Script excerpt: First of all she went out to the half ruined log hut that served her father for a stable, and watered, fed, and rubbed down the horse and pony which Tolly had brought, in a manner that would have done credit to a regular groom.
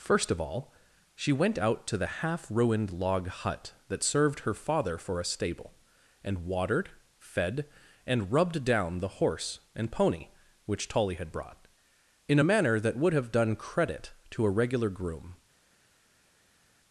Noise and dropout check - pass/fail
pass